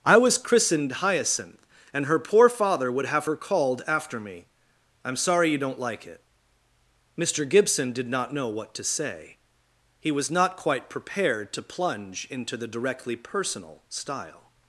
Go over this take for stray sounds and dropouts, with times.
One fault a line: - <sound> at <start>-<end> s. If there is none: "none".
none